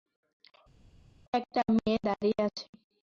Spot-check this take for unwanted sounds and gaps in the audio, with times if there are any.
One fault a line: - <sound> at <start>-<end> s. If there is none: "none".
none